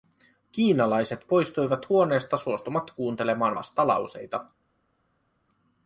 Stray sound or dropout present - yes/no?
no